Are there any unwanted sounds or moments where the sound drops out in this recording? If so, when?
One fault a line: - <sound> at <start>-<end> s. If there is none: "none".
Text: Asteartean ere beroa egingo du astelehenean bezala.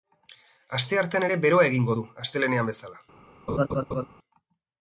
- laugh at 3.5-4.1 s